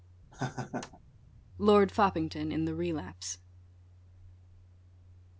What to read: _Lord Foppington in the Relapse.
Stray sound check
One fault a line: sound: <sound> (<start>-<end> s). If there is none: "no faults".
sound: laugh (0.3-1.0 s)